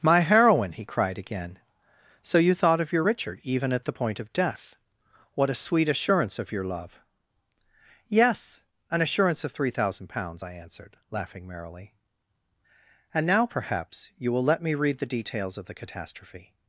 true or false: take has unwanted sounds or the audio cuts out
false